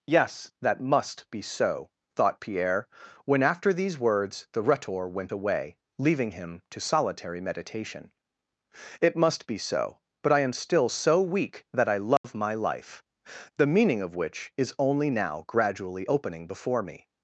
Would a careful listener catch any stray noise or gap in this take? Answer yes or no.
yes